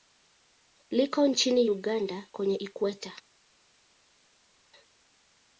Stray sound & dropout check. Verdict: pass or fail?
pass